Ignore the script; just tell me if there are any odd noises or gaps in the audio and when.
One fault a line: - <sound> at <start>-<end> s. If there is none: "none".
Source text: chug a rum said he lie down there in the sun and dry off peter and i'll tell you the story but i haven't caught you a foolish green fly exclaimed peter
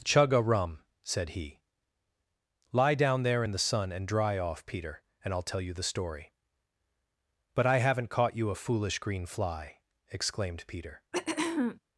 - throat clearing at 11.1-11.8 s